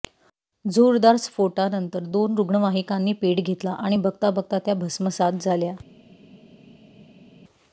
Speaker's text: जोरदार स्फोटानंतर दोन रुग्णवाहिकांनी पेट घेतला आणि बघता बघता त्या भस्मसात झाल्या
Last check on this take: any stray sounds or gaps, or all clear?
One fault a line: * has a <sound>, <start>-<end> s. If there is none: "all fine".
all fine